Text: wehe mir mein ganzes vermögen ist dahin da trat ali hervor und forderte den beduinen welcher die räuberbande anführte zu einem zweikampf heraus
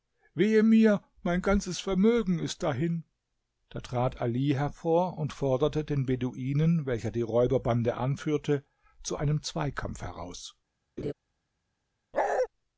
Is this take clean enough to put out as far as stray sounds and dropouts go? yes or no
no